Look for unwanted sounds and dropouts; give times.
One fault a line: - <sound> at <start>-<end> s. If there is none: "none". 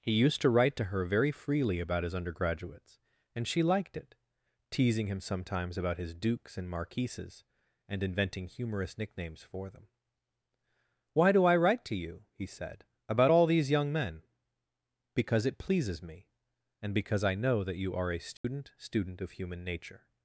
- dropout at 18.4-18.4 s